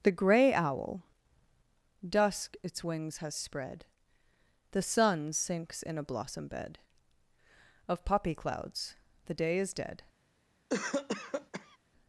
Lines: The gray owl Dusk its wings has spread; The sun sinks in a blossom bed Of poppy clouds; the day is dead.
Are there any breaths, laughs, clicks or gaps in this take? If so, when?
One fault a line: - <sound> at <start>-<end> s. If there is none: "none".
- cough at 10.7-11.8 s